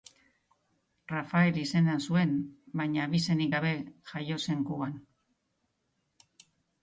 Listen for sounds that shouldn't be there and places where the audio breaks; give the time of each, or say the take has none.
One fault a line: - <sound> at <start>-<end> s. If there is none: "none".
none